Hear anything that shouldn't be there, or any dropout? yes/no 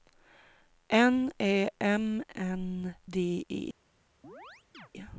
yes